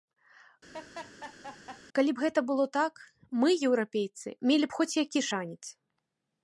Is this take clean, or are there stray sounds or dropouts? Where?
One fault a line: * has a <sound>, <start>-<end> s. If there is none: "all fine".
* has a laugh, 0.7-1.8 s